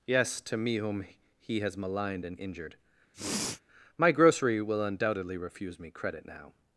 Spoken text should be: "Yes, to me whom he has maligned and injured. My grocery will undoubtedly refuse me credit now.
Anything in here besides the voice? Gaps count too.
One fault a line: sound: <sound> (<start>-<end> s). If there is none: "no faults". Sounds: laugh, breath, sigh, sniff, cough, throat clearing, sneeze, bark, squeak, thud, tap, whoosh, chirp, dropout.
sound: sniff (3.1-3.6 s)